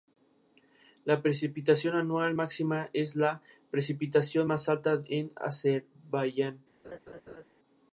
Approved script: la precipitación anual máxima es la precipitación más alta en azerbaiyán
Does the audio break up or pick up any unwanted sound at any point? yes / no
yes